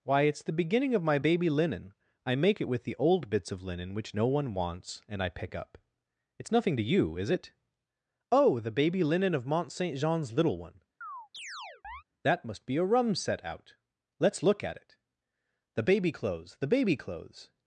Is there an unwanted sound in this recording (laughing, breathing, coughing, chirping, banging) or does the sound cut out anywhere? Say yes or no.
yes